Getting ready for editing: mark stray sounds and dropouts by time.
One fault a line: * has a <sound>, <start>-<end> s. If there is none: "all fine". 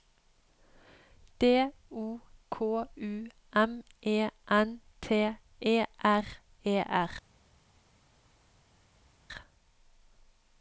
all fine